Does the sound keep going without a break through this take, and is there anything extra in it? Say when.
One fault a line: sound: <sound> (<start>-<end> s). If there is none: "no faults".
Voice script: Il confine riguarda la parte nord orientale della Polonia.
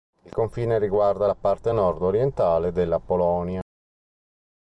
no faults